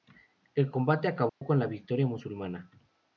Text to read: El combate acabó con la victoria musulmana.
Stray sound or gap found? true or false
true